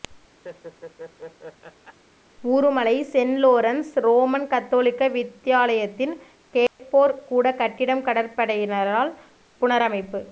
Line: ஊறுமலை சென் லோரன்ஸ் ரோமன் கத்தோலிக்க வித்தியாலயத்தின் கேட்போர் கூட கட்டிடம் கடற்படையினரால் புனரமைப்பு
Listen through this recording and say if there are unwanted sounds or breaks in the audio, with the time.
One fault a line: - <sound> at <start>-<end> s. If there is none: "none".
- laugh at 0.4-2.0 s
- dropout at 6.7-6.8 s